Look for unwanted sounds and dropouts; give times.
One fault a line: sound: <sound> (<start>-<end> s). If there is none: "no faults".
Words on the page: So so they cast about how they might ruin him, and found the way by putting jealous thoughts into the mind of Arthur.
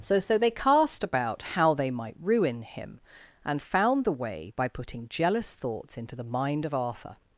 no faults